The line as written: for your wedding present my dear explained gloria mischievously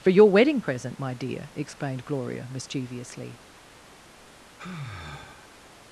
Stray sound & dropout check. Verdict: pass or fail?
fail